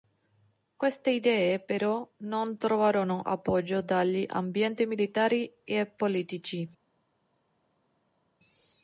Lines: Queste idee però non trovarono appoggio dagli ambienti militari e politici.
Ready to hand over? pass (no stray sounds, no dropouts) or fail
pass